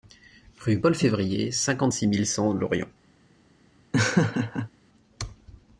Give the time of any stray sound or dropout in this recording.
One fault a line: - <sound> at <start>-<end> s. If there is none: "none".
- laugh at 3.9-4.7 s